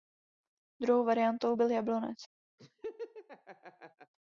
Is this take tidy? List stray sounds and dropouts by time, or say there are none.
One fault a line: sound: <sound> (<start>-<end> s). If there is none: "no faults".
sound: laugh (2.6-4.1 s)